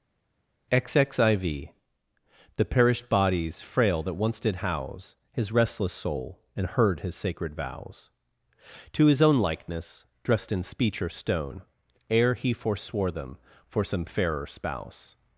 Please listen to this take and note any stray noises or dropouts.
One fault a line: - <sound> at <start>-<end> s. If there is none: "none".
none